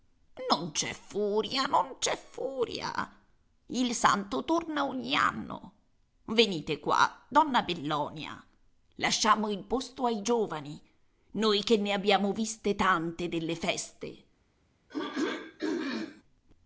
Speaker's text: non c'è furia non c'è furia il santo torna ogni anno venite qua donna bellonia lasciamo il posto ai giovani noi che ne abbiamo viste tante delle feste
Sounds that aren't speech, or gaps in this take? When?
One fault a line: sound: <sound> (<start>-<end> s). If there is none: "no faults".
sound: throat clearing (14.9-16.2 s)